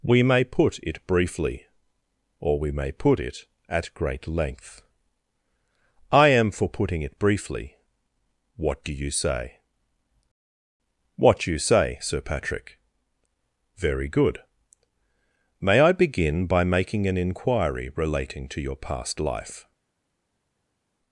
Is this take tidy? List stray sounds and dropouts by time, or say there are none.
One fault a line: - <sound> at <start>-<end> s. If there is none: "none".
none